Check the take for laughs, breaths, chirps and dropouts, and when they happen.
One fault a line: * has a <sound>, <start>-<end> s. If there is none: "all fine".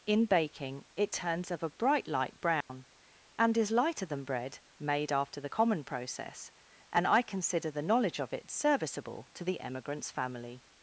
* has a dropout, 2.6-2.7 s